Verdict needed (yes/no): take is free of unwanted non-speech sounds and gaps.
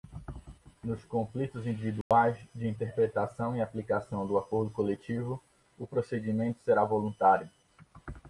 no